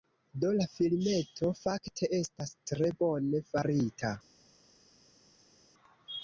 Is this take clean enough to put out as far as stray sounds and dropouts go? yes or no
yes